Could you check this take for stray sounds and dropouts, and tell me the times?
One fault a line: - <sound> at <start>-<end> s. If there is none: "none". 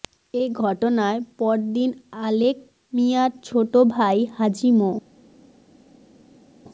none